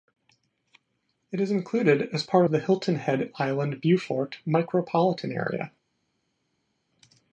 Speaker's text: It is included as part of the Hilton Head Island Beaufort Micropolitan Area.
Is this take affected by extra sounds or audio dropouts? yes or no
no